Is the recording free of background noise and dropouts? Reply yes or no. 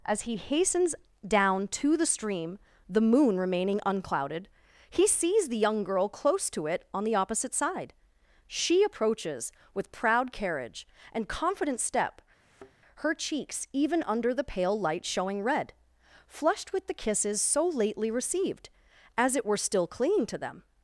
no